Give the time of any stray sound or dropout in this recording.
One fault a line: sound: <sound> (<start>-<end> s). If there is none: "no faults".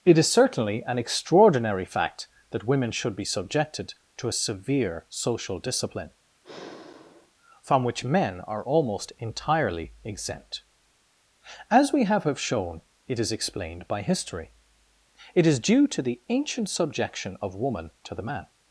sound: sigh (6.4-7.3 s)